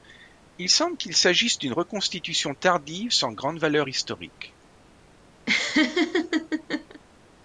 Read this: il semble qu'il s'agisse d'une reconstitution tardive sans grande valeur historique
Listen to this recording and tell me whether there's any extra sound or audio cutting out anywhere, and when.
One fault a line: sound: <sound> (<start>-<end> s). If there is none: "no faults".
sound: laugh (5.5-7.0 s)